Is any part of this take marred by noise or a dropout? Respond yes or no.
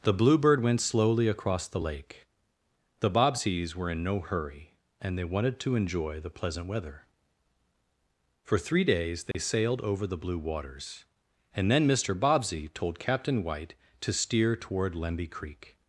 yes